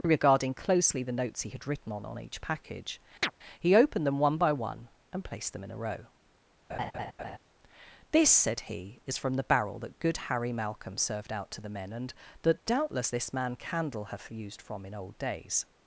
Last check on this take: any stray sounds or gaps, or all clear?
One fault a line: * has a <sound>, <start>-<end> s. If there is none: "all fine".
* has a chirp, 3.2-3.3 s
* has a laugh, 6.7-7.4 s